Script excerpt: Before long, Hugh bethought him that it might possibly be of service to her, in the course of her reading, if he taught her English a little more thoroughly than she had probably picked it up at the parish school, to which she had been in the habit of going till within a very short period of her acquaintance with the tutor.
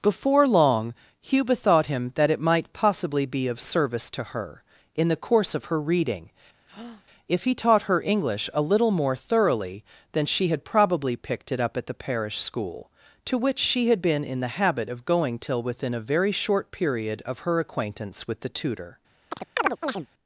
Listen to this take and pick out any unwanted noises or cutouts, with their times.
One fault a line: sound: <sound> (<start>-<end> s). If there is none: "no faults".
sound: breath (6.7-7.0 s)
sound: chirp (19.3-20.1 s)